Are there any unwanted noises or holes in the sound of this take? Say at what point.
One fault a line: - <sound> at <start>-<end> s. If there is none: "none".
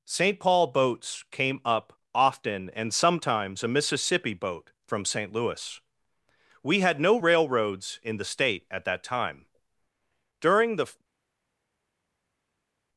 none